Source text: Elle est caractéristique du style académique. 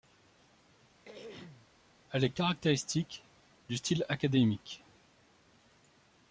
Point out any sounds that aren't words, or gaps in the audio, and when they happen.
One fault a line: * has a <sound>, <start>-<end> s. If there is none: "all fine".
* has a throat clearing, 1.0-1.7 s